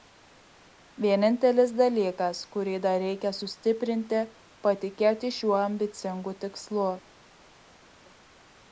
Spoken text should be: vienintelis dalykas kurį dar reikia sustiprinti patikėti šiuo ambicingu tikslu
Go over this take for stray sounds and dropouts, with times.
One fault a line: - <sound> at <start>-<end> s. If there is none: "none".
none